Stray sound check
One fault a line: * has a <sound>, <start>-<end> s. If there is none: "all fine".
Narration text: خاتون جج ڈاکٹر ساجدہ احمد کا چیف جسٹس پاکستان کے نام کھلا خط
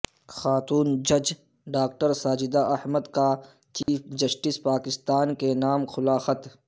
* has a dropout, 3.8-3.9 s